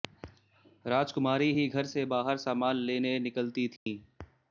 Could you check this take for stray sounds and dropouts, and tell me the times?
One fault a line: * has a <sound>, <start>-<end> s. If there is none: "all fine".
* has a dropout, 3.8-3.9 s